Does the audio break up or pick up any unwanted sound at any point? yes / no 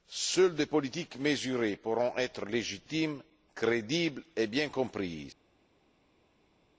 no